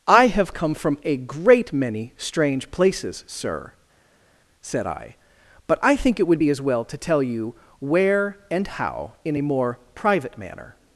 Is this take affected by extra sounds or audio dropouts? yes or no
no